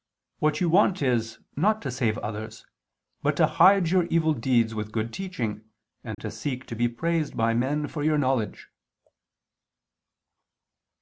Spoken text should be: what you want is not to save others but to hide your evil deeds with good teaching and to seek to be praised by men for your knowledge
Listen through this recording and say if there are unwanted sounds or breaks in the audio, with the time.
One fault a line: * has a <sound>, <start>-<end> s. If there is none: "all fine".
* has a dropout, 6.1-6.2 s